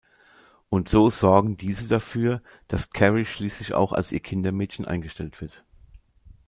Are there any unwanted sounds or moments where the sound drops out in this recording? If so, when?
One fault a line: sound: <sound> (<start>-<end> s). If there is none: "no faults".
no faults